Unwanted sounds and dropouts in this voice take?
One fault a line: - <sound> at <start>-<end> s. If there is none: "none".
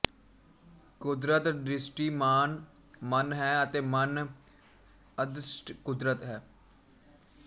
none